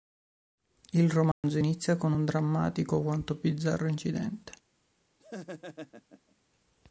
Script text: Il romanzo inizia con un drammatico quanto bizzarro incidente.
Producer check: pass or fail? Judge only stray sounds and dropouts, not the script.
fail